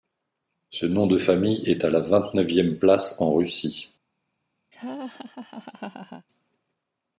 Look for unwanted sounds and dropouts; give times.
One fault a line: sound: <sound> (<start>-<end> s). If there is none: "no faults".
sound: laugh (4.7-6.3 s)